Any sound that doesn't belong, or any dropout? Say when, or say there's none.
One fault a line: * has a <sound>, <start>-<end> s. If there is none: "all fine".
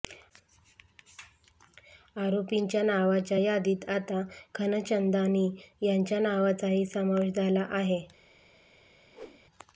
* has a whoosh, 9.1-9.4 s